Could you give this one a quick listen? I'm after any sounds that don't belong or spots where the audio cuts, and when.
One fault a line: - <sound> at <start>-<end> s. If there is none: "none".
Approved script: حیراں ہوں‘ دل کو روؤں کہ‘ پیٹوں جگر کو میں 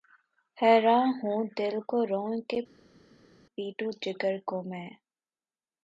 none